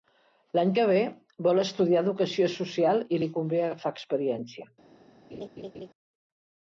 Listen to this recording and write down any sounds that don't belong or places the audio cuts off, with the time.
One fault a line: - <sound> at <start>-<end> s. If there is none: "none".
- laugh at 5.3-5.9 s